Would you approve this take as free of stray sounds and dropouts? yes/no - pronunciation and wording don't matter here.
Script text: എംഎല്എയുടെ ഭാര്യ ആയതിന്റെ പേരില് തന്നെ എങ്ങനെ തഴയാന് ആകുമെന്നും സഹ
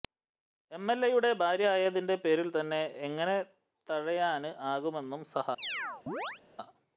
no